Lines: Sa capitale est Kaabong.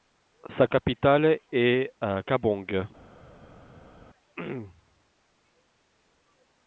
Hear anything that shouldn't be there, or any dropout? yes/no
no